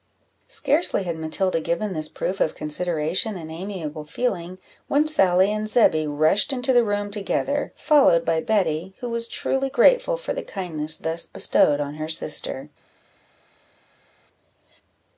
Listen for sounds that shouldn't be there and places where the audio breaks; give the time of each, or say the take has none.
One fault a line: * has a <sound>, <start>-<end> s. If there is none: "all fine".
all fine